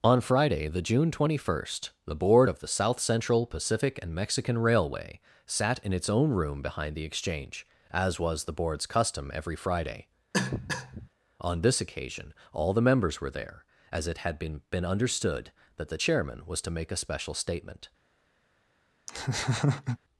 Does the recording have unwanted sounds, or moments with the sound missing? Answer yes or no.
yes